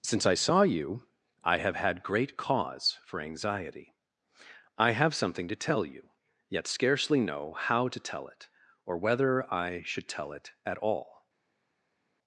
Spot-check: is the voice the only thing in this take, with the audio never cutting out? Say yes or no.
yes